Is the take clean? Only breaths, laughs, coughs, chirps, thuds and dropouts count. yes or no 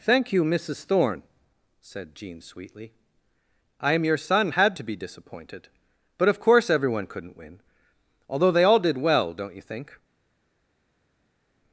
yes